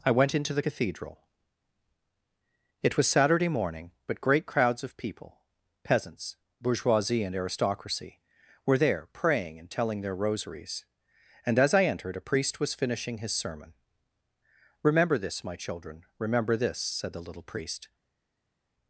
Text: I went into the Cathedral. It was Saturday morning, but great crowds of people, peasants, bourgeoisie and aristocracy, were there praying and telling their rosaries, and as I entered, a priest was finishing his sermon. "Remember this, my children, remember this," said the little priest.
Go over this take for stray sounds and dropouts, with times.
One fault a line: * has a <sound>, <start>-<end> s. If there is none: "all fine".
all fine